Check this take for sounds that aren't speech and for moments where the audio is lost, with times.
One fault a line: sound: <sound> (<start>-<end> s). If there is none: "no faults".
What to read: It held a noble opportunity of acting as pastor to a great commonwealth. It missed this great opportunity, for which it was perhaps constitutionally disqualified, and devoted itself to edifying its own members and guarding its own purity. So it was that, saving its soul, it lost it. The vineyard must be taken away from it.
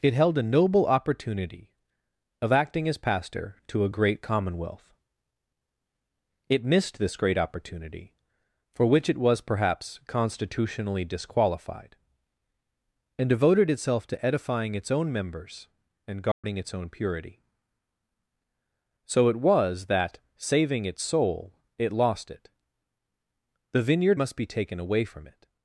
sound: dropout (16.3-16.4 s)